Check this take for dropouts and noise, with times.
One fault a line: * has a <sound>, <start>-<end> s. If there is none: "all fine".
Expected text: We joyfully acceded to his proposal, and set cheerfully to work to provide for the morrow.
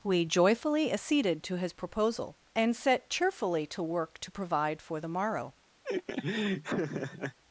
* has a laugh, 5.8-7.4 s